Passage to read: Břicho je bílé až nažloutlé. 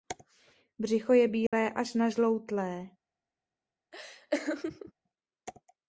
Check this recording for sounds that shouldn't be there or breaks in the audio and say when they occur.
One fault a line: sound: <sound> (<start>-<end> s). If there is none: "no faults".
sound: dropout (1.5-1.5 s)
sound: laugh (3.9-4.9 s)